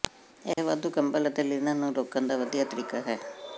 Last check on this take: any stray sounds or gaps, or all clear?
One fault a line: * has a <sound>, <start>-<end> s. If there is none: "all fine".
* has a dropout, 0.5-0.6 s